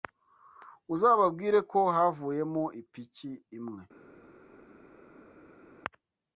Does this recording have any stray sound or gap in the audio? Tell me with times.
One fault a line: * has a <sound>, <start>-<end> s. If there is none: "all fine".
all fine